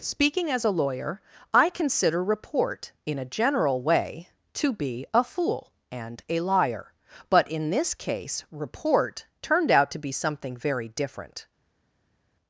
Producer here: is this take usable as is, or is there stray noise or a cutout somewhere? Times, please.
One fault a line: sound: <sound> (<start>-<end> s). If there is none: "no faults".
no faults